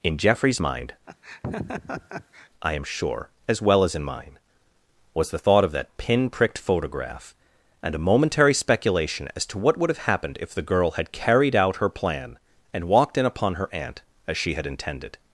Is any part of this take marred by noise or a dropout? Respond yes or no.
yes